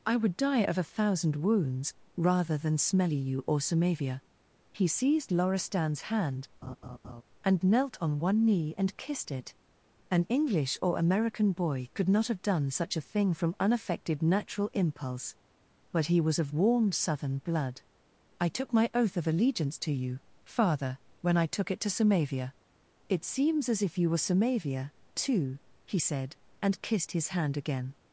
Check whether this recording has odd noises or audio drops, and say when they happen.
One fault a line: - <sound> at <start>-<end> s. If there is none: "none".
- laugh at 6.6-7.2 s